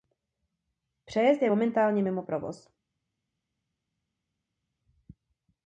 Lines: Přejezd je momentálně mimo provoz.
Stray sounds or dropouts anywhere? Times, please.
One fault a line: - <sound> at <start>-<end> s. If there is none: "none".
none